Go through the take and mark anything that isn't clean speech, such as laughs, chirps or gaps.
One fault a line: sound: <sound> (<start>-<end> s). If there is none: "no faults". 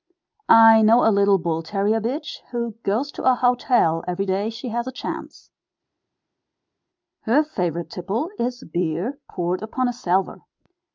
no faults